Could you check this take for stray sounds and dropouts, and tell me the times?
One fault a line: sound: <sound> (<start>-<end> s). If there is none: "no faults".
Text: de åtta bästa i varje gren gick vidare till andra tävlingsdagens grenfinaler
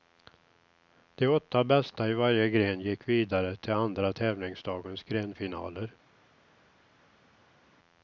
no faults